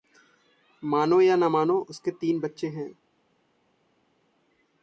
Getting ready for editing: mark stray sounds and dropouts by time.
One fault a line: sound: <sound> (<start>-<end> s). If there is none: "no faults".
no faults